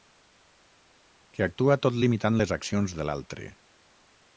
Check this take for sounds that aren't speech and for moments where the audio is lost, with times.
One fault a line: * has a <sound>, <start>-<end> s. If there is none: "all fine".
all fine